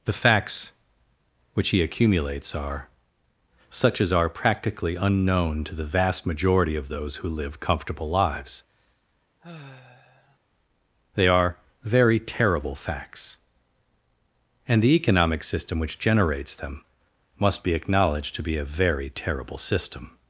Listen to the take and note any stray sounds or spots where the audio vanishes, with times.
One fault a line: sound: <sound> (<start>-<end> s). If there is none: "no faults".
sound: sigh (9.4-10.4 s)